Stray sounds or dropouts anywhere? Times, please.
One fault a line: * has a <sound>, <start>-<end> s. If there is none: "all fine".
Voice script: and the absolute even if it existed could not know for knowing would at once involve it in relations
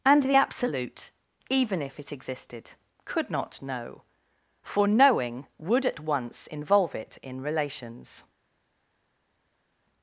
all fine